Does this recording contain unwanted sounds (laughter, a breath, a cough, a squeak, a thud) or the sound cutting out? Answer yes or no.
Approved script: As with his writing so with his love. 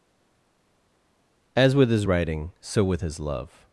no